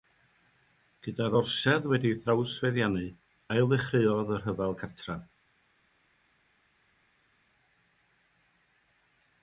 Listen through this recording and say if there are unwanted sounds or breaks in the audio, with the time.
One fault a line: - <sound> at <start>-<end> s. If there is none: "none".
none